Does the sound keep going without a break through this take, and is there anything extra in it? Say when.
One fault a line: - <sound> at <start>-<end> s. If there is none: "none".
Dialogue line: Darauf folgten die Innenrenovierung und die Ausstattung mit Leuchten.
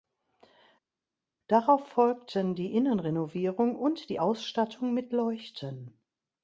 none